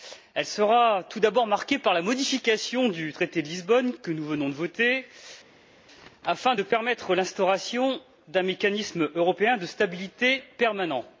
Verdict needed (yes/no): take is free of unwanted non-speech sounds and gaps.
yes